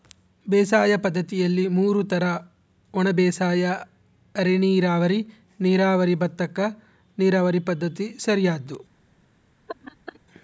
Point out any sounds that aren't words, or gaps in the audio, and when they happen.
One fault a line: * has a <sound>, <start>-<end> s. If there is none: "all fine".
* has a laugh, 9.7-10.2 s